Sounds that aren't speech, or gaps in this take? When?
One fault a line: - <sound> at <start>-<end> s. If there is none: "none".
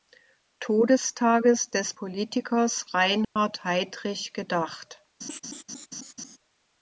- dropout at 3.2-3.4 s
- laugh at 5.2-6.4 s